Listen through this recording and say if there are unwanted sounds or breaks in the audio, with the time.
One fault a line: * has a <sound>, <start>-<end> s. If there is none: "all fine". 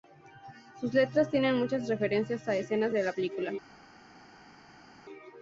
all fine